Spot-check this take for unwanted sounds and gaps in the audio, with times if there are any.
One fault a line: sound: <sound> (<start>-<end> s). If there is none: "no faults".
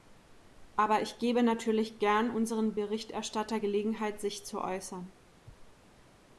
no faults